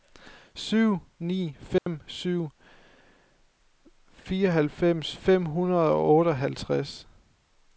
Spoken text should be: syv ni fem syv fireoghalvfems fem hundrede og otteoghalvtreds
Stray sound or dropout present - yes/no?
yes